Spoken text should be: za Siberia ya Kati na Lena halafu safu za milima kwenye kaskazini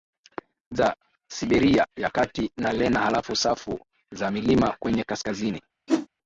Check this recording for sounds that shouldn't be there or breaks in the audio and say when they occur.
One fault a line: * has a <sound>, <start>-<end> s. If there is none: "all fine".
* has a whoosh, 5.9-6.1 s